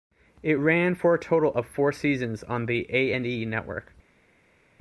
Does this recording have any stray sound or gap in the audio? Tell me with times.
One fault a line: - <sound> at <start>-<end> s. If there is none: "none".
none